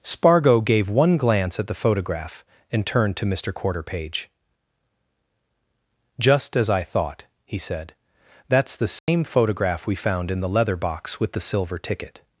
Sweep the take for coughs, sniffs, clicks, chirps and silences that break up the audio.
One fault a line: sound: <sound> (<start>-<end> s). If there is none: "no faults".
sound: dropout (9.0-9.1 s)